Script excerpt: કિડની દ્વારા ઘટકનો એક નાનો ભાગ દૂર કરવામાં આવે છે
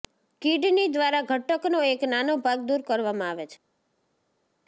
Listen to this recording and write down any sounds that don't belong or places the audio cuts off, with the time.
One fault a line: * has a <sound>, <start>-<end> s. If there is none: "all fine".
all fine